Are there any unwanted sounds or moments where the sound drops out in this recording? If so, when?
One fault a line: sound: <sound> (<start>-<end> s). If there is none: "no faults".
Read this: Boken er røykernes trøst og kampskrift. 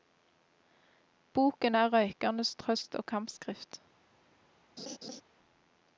sound: laugh (4.8-5.2 s)